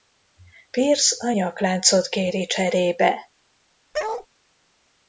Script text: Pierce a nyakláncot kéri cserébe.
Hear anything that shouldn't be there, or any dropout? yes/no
yes